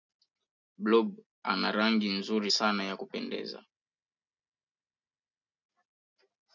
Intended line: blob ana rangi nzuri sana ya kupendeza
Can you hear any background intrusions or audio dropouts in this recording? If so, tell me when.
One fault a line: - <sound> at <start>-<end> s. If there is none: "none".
none